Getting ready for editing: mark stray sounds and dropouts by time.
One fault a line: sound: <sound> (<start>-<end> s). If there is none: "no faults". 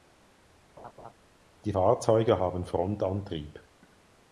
sound: laugh (0.8-1.1 s)